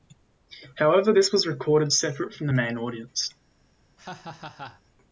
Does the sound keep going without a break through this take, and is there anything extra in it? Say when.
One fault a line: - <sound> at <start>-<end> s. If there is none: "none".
- laugh at 4.0-4.8 s